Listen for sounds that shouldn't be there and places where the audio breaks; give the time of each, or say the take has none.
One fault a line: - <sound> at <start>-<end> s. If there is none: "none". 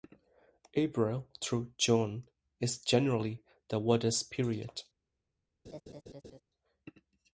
- laugh at 5.6-6.4 s